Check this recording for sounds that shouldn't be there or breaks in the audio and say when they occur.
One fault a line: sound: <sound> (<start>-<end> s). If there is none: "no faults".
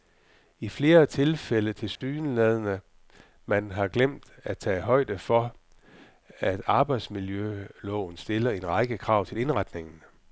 sound: dropout (2.0-2.0 s)